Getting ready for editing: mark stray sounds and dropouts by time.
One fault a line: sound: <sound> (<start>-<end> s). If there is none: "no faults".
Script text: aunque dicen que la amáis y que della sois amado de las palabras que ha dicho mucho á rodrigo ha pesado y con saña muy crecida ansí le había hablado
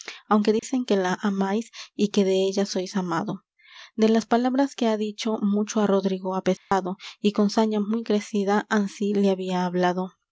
sound: dropout (0.6-0.6 s)
sound: dropout (6.6-6.7 s)